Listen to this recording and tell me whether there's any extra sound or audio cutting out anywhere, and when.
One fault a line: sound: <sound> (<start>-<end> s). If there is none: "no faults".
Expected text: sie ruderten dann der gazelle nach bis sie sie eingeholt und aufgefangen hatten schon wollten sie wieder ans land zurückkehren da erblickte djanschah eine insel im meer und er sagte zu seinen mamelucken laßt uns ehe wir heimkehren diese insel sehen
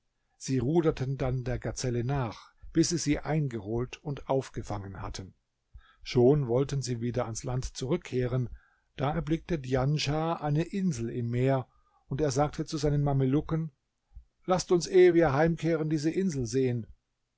no faults